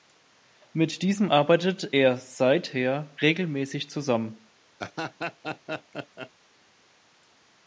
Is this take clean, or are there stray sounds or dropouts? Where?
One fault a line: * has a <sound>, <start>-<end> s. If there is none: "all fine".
* has a laugh, 4.8-6.3 s